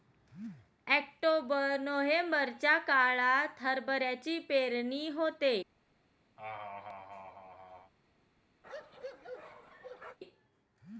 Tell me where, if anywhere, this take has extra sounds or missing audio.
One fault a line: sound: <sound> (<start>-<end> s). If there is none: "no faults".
sound: laugh (6.4-7.9 s)
sound: bark (8.6-10.2 s)